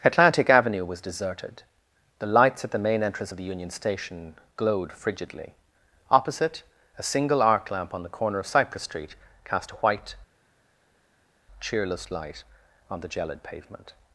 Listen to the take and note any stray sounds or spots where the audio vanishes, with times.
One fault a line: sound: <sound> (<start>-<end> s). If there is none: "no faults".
no faults